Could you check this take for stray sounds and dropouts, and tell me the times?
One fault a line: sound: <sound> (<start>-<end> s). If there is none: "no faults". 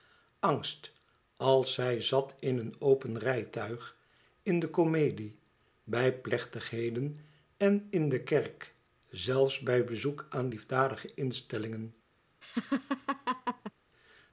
sound: laugh (12.4-13.7 s)